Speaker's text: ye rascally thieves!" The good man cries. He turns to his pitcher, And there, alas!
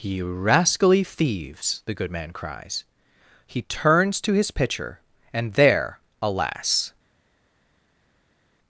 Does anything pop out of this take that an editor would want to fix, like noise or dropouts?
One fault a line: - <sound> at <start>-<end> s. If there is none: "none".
none